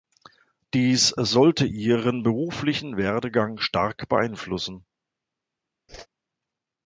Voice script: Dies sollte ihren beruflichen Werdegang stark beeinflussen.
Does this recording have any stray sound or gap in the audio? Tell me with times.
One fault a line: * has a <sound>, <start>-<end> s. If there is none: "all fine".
* has a whoosh, 5.9-6.1 s